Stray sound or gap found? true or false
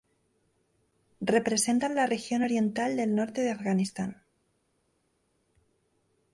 false